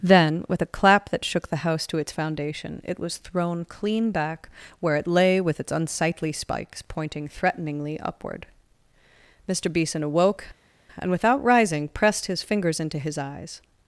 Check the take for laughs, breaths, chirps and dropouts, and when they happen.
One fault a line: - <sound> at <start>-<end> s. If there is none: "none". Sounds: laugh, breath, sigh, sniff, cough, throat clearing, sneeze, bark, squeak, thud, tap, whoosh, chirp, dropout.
none